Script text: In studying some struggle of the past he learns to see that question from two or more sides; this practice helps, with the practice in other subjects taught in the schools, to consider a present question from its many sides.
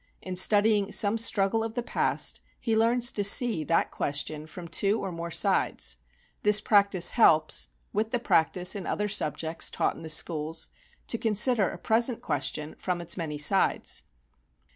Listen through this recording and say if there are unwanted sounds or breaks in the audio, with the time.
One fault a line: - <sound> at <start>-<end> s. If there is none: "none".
none